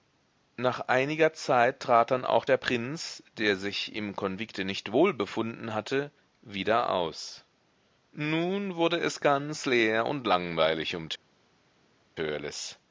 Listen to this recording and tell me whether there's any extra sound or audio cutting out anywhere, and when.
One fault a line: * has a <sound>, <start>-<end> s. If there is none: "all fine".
all fine